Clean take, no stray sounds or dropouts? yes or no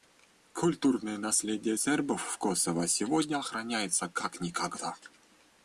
yes